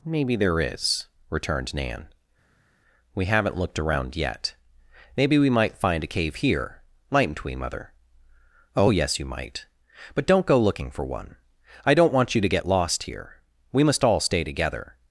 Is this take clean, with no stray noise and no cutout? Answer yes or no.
yes